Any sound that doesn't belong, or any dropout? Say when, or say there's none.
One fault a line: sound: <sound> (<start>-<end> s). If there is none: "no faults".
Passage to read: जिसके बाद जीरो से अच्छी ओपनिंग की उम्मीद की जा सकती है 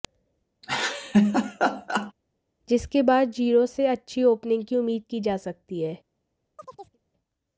sound: laugh (0.6-2.1 s)
sound: chirp (6.6-7.0 s)